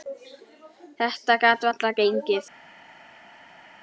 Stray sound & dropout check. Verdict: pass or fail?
pass